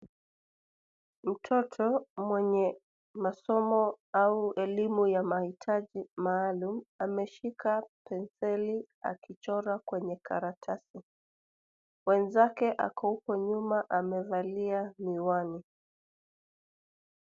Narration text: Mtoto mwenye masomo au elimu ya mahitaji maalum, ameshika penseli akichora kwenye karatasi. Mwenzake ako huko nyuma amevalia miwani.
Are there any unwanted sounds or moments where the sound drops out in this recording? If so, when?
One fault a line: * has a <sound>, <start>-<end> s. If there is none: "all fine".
all fine